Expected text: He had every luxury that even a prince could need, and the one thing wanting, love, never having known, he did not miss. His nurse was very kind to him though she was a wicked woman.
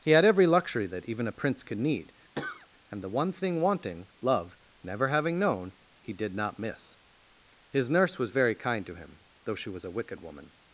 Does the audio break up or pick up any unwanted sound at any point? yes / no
yes